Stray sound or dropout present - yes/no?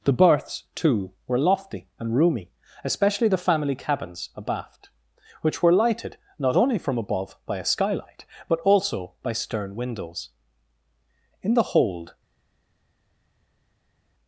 no